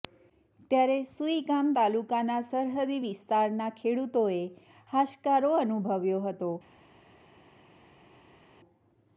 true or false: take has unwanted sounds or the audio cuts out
false